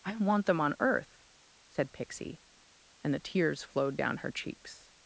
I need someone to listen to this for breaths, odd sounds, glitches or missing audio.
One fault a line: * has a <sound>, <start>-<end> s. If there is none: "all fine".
all fine